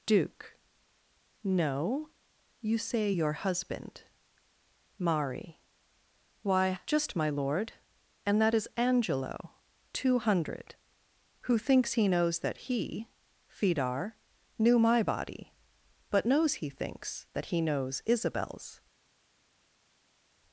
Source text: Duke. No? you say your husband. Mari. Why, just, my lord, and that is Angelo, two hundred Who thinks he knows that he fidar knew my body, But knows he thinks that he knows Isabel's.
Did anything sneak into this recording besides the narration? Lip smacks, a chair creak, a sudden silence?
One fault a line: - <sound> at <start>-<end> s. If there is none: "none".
none